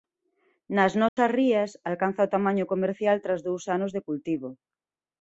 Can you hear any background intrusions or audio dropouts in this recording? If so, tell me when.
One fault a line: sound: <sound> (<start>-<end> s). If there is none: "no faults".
sound: dropout (1.1-1.2 s)